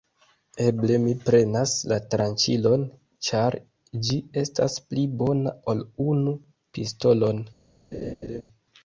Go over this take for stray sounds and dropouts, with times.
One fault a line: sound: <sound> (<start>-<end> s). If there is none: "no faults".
sound: laugh (7.9-8.4 s)